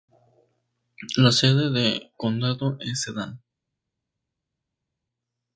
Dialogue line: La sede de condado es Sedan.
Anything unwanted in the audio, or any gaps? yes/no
no